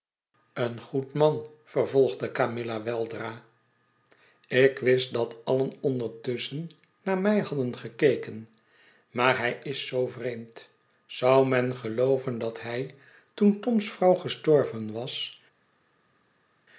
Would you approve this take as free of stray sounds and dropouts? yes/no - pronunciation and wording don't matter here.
yes